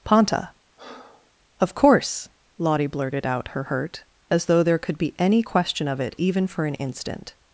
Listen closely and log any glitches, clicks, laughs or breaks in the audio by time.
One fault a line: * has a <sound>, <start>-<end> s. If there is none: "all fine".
* has a breath, 0.8-1.3 s